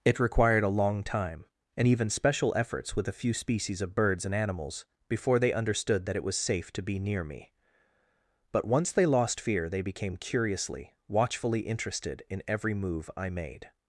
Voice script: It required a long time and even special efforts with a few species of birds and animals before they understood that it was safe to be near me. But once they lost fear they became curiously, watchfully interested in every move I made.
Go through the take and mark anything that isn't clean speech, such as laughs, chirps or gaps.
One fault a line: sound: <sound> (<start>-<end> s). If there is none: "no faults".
no faults